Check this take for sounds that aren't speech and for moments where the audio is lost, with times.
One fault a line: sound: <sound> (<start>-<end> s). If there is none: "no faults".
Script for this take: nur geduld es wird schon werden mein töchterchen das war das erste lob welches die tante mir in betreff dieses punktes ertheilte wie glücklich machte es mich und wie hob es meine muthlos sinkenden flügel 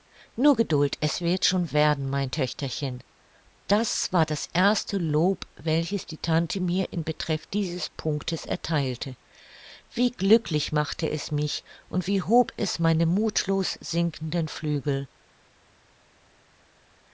no faults